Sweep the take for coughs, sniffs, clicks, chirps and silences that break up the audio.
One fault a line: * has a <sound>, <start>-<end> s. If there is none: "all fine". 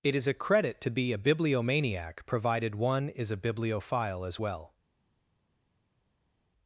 all fine